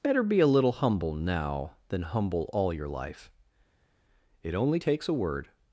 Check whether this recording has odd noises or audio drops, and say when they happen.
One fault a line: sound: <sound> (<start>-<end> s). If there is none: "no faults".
no faults